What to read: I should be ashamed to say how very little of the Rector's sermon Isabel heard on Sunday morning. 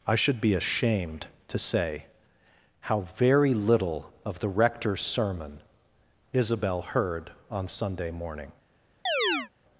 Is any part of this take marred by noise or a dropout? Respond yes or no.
yes